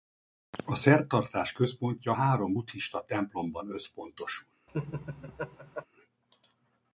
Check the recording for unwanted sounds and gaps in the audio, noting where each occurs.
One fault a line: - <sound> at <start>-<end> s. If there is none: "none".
- laugh at 4.7-5.9 s